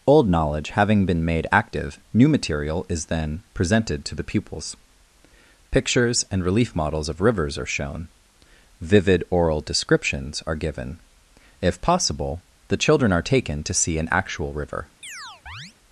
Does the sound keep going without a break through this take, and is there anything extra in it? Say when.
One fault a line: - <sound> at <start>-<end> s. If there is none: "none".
- chirp at 15.0-15.7 s